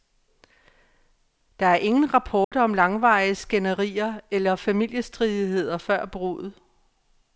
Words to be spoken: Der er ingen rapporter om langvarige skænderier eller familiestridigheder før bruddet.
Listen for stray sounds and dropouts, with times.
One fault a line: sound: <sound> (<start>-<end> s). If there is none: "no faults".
sound: dropout (2.4-2.5 s)